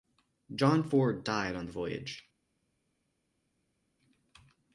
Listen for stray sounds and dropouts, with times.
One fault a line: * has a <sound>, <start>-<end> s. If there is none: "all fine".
all fine